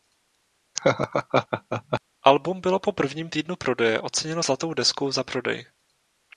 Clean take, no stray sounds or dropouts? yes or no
no